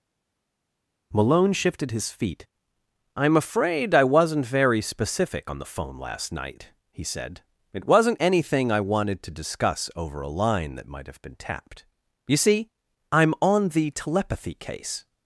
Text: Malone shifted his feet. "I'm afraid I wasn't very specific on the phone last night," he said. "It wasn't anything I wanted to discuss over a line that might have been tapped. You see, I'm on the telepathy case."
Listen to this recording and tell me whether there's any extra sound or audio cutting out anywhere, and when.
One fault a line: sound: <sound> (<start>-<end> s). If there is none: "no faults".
no faults